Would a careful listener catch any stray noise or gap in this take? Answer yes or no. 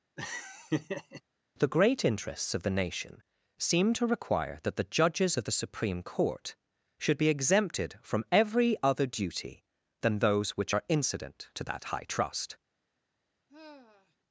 yes